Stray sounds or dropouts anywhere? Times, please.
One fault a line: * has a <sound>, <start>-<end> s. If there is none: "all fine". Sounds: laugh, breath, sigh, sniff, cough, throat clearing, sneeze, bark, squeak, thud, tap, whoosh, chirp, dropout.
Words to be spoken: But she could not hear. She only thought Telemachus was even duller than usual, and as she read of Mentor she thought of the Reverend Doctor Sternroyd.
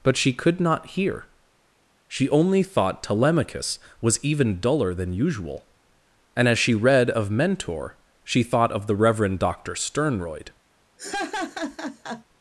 * has a laugh, 11.0-12.2 s